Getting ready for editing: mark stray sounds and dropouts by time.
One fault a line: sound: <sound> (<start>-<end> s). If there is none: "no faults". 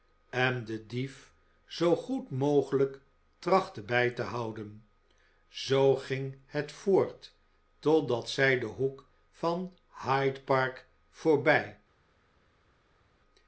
no faults